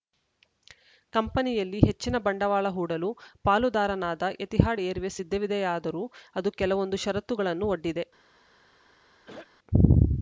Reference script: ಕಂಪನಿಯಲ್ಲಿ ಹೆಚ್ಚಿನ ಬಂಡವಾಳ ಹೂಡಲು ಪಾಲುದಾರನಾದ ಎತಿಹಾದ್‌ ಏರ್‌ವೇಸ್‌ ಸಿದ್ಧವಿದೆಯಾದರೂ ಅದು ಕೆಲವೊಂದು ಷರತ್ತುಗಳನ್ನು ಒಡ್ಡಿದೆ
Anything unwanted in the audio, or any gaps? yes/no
yes